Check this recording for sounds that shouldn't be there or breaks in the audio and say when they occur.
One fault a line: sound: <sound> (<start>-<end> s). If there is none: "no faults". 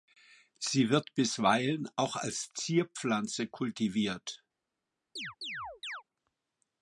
sound: chirp (5.2-6.0 s)